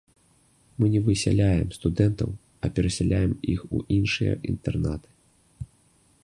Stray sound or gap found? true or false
false